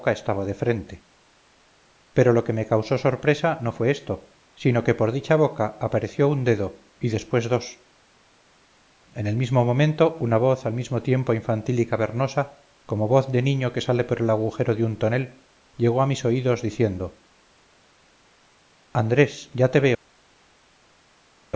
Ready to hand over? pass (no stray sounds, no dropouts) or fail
pass